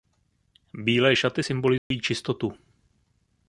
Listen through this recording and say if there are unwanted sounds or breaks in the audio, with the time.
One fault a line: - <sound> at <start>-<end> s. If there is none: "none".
- dropout at 1.8-1.9 s